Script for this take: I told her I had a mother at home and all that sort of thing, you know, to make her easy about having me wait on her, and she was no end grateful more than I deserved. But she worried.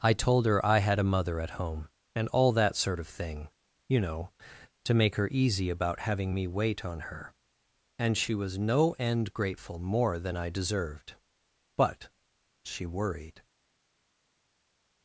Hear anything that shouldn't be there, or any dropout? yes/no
no